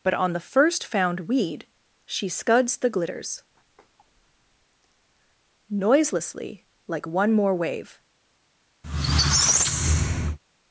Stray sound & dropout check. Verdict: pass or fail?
fail